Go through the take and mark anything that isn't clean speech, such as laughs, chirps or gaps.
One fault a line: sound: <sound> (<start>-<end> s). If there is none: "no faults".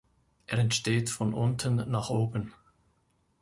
no faults